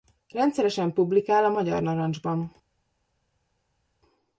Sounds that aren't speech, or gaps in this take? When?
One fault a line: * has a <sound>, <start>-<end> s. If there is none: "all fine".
all fine